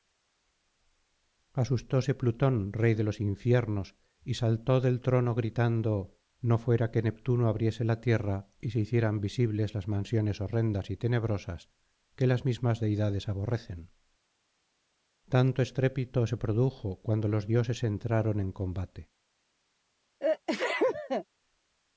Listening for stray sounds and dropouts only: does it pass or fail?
fail